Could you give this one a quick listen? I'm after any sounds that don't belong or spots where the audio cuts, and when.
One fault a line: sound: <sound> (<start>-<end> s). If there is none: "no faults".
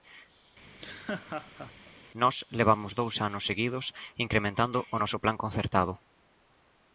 sound: laugh (0.6-1.9 s)